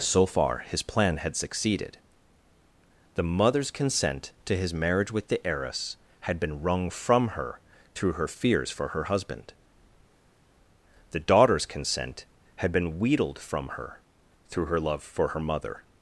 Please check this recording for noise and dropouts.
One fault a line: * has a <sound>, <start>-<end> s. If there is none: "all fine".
all fine